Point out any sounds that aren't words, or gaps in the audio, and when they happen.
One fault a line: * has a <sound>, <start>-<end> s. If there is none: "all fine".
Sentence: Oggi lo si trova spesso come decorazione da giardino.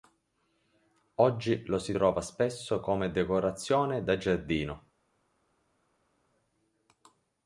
all fine